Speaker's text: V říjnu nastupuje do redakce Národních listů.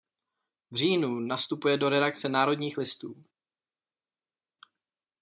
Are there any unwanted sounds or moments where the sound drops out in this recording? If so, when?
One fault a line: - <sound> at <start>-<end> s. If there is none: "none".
none